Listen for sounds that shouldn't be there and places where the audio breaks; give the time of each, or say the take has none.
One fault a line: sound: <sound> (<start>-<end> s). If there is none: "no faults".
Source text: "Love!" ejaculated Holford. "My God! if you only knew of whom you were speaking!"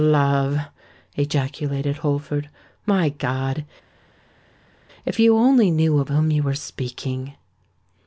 no faults